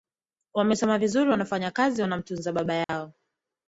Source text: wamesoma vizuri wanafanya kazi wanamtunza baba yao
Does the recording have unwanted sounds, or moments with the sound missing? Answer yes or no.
yes